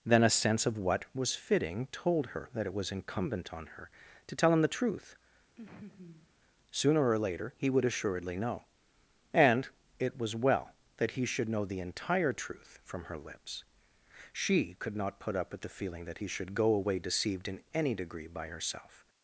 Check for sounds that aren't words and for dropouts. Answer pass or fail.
fail